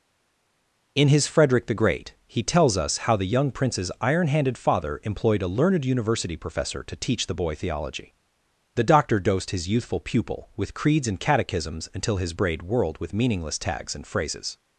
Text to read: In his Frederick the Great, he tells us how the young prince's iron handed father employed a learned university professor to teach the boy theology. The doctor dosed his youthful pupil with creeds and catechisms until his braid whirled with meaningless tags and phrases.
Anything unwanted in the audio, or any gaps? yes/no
no